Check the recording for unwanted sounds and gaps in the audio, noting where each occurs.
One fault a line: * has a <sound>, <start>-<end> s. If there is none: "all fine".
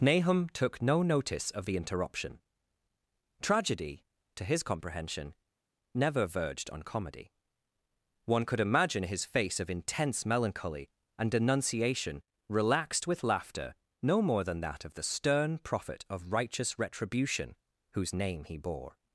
all fine